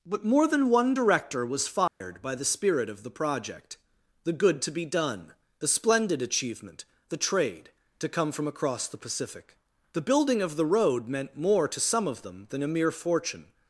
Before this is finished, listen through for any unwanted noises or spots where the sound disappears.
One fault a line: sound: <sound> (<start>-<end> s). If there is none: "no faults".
sound: dropout (1.9-2.0 s)